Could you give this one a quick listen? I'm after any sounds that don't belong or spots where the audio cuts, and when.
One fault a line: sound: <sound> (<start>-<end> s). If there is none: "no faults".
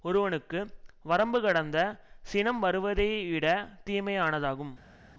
no faults